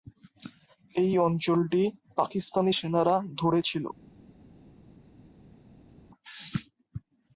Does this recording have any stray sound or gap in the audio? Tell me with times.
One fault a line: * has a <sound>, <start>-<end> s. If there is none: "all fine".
all fine